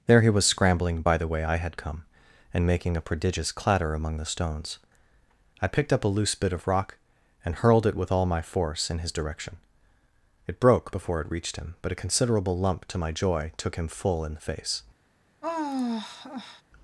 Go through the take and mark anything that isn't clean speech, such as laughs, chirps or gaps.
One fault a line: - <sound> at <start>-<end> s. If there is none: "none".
- sigh at 15.4-16.6 s